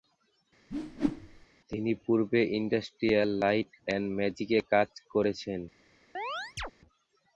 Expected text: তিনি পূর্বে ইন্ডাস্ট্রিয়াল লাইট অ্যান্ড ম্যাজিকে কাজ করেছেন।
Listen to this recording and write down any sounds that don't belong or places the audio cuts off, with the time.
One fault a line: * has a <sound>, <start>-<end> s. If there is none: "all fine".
* has a whoosh, 0.7-1.5 s
* has a chirp, 6.1-6.7 s